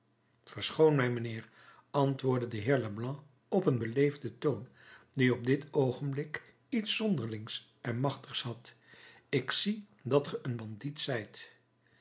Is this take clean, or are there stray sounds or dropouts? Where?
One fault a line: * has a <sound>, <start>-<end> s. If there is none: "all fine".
all fine